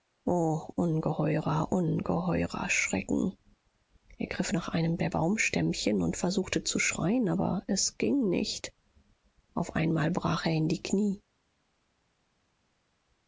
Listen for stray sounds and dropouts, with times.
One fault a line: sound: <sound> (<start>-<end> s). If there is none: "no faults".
no faults